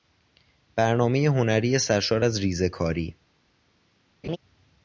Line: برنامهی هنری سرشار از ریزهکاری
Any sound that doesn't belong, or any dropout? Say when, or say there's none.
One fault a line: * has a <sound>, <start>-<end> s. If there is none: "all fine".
* has a laugh, 4.2-4.4 s